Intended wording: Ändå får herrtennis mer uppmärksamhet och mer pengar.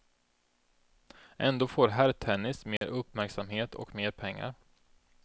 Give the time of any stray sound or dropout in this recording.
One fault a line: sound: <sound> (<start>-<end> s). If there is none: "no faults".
sound: dropout (2.8-2.8 s)